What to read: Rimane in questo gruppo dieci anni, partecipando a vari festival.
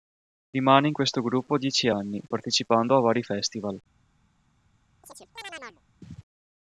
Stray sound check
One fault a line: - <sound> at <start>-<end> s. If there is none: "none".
- chirp at 5.0-5.8 s